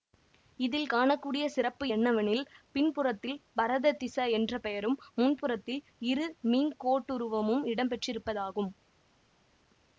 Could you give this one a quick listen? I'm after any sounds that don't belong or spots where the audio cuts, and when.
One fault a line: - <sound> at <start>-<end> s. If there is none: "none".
none